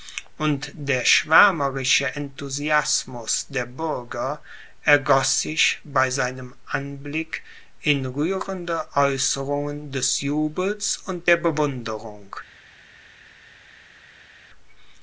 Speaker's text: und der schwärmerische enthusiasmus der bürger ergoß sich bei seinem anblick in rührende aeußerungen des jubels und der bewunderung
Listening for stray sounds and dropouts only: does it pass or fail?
pass